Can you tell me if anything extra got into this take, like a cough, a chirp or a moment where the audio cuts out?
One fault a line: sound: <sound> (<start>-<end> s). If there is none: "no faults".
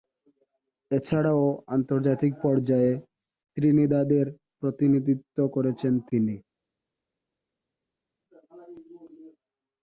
no faults